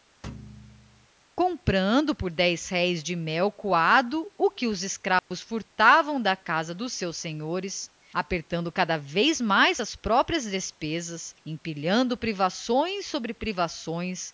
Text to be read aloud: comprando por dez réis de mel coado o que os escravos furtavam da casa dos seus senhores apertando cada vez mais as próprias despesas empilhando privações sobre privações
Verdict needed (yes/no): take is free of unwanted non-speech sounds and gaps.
no